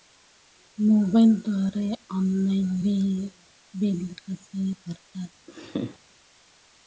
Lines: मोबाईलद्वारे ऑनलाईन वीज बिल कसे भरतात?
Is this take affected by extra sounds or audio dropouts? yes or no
yes